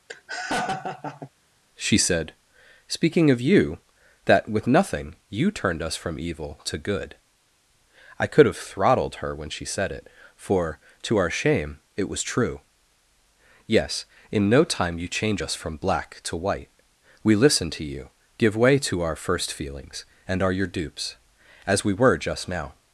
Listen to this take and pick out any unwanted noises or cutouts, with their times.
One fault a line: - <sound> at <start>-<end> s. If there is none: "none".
- laugh at 0.1-1.3 s